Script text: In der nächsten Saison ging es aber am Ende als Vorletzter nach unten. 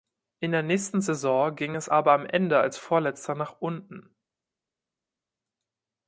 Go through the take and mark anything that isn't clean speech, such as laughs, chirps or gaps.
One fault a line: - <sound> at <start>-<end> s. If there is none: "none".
none